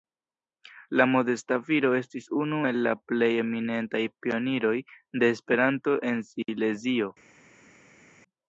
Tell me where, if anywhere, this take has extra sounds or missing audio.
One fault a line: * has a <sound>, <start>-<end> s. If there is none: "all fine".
all fine